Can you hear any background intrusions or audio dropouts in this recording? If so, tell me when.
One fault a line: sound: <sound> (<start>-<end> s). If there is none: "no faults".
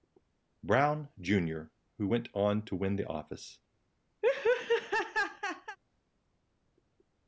sound: laugh (4.2-5.8 s)